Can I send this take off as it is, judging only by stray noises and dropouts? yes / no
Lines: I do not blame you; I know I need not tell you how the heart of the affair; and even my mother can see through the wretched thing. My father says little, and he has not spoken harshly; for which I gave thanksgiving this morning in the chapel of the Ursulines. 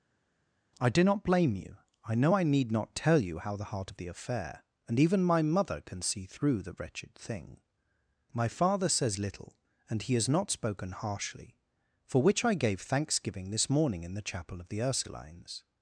yes